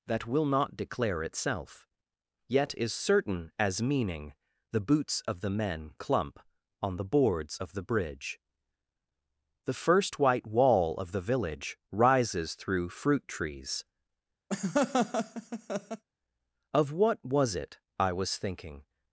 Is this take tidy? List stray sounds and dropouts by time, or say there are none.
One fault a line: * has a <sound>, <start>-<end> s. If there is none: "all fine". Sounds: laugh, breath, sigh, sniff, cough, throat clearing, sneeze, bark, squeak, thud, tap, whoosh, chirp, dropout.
* has a laugh, 14.5-16.0 s